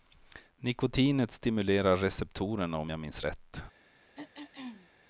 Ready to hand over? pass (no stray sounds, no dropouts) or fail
fail